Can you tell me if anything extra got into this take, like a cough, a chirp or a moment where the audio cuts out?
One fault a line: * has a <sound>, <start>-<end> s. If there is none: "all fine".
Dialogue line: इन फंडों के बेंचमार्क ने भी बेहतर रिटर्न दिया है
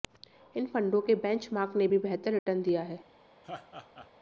* has a dropout, 2.4-2.5 s
* has a laugh, 3.4-4.1 s